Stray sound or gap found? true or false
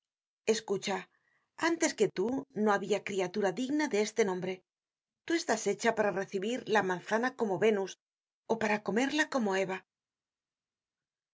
false